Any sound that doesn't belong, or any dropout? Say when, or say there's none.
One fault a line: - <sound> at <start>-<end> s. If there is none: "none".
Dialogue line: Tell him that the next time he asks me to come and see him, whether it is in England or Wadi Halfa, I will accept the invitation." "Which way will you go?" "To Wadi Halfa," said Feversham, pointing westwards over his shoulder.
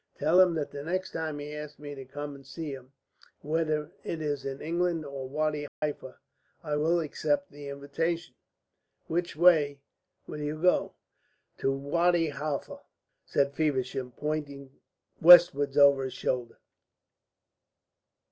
- dropout at 5.7-5.8 s